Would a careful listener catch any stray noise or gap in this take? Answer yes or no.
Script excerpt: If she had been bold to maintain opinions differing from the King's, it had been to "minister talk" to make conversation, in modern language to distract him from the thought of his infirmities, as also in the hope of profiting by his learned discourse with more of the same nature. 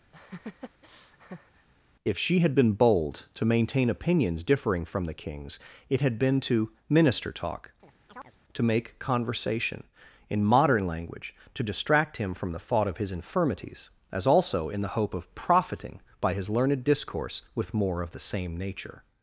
yes